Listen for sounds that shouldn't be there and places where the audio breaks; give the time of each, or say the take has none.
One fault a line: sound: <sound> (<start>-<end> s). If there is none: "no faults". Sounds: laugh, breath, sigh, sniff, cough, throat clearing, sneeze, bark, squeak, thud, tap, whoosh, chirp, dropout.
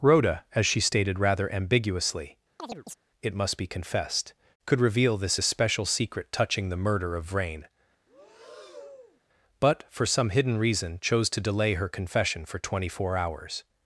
sound: chirp (2.6-3.0 s)
sound: breath (8.1-9.2 s)